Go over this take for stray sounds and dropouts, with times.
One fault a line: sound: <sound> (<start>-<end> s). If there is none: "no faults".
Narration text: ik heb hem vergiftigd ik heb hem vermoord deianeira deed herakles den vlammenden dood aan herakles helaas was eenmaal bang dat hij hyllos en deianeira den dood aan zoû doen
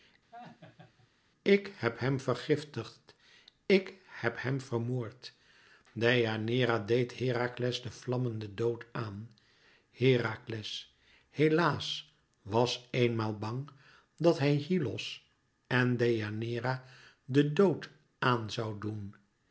sound: laugh (0.3-1.1 s)